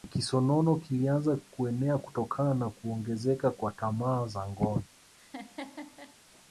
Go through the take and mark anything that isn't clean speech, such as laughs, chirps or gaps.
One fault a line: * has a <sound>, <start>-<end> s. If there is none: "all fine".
* has a laugh, 5.2-6.2 s